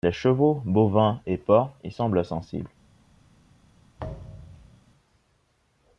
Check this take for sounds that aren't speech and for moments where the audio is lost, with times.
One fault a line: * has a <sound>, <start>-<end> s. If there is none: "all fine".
* has a thud, 4.0-4.8 s